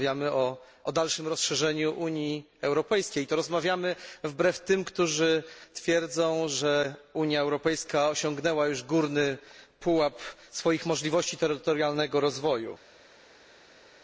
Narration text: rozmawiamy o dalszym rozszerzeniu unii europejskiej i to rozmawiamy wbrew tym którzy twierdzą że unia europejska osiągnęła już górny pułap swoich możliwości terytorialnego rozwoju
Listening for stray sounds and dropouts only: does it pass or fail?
pass